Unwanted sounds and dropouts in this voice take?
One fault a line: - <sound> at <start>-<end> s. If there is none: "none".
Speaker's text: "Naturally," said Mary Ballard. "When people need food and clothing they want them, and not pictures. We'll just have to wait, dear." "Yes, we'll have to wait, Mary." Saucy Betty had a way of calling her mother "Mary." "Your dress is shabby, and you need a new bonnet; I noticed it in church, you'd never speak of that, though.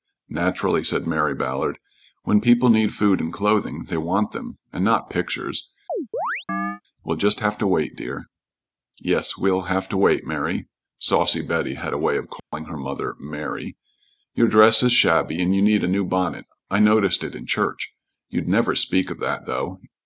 - chirp at 5.9-6.8 s
- dropout at 12.4-12.5 s